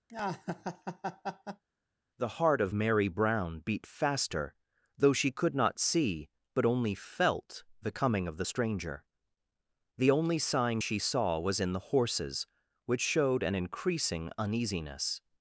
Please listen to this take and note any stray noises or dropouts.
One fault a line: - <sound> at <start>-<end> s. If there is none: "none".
- laugh at 0.1-1.6 s